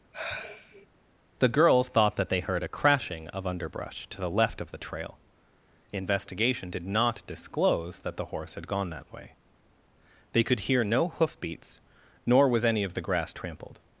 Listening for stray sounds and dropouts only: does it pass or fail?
fail